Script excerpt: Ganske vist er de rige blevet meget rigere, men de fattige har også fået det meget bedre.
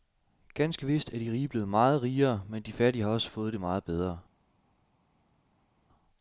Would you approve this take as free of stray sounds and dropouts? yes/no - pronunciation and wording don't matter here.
yes